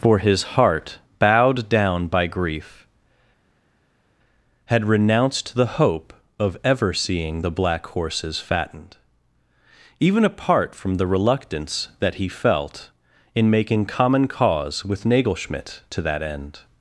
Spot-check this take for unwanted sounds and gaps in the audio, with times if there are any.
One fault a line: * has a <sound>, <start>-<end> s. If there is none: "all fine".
all fine